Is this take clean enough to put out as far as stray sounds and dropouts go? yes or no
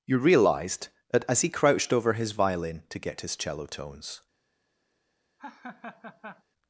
no